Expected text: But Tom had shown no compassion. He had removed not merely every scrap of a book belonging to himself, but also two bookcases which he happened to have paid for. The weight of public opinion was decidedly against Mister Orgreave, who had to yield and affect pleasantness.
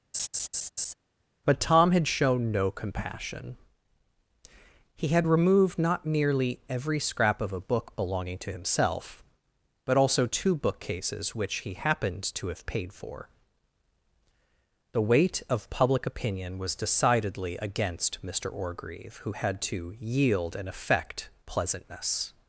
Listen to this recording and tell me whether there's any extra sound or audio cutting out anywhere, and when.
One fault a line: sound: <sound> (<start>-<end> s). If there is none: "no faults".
sound: laugh (0.1-0.9 s)